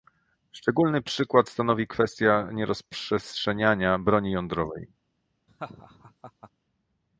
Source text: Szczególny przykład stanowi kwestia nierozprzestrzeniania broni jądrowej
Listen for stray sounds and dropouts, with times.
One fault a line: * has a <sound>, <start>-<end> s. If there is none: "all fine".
* has a laugh, 5.5-6.5 s